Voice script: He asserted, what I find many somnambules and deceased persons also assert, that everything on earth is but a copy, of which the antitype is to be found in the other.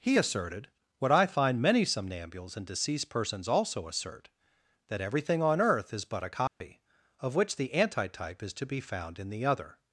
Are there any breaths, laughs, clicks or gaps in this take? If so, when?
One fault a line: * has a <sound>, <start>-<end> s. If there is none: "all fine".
* has a dropout, 6.5-6.6 s